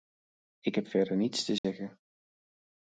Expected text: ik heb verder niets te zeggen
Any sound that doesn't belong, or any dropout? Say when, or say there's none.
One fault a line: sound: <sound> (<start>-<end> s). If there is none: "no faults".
sound: dropout (1.6-1.6 s)